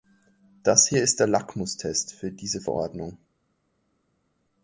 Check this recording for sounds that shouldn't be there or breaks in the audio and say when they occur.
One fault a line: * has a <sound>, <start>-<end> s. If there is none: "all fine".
all fine